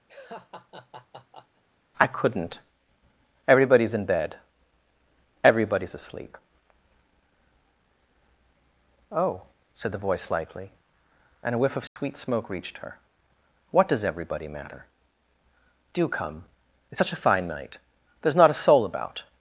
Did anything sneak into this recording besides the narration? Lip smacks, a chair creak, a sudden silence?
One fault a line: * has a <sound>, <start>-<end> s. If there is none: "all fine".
* has a laugh, 0.1-1.6 s
* has a dropout, 11.9-12.0 s